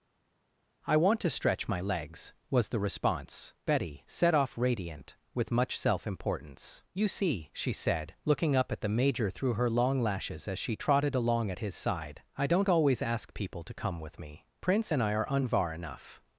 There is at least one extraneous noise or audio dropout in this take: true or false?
false